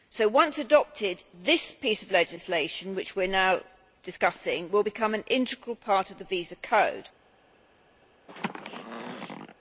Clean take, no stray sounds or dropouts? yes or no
no